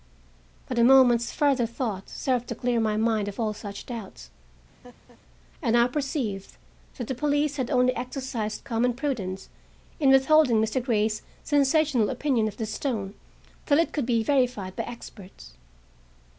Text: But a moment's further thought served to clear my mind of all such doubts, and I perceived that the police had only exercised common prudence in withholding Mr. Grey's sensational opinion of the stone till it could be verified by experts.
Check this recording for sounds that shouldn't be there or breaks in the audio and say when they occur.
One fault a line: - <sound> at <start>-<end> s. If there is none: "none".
- laugh at 4.8-5.2 s